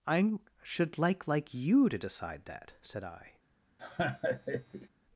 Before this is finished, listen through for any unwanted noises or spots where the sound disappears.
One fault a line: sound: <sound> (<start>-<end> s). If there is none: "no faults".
sound: laugh (3.8-4.9 s)